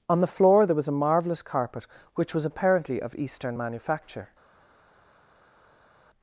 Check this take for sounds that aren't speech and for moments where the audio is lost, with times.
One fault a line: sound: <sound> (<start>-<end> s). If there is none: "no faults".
no faults